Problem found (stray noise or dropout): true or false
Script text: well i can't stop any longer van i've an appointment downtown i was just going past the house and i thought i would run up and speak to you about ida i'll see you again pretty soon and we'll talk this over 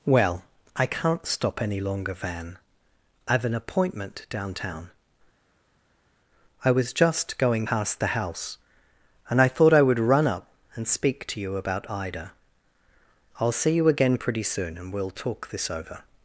false